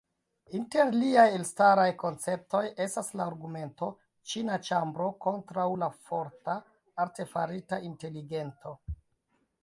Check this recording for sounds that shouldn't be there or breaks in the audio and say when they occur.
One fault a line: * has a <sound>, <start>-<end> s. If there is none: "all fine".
all fine